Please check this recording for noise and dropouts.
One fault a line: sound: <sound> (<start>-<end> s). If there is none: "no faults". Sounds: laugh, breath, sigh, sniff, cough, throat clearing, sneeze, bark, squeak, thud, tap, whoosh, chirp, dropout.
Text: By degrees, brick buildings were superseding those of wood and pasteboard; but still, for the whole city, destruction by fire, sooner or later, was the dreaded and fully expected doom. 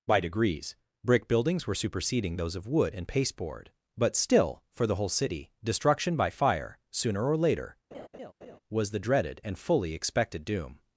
sound: laugh (7.9-8.6 s)